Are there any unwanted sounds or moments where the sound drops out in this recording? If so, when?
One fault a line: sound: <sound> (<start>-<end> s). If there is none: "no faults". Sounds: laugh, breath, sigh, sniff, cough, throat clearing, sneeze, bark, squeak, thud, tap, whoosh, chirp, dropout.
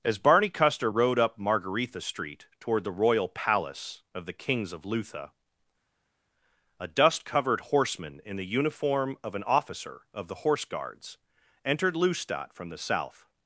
no faults